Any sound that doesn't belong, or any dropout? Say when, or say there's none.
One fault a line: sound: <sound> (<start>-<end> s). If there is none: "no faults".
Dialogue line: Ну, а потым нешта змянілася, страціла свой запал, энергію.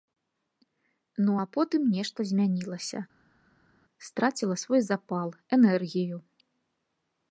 no faults